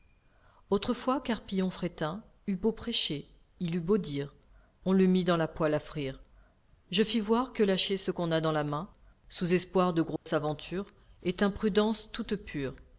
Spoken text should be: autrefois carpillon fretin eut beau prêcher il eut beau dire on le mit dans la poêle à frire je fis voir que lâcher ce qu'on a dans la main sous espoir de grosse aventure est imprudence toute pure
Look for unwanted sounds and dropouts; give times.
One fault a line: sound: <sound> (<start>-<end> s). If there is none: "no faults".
sound: dropout (10.2-10.3 s)